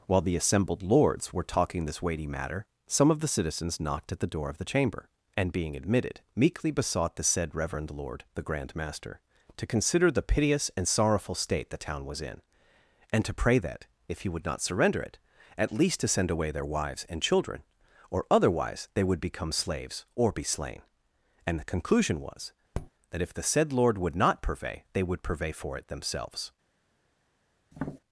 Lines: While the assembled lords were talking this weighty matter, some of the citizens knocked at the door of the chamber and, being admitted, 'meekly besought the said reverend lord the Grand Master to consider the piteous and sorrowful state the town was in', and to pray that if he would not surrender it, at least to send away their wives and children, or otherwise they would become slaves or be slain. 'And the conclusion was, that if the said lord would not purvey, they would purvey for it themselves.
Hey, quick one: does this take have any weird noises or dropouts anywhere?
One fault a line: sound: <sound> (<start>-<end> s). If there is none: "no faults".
sound: tap (22.7-22.9 s)
sound: tap (27.7-28.0 s)